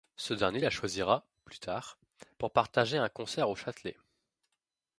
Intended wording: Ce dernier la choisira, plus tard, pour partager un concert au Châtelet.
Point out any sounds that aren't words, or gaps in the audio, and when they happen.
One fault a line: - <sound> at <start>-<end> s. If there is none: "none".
none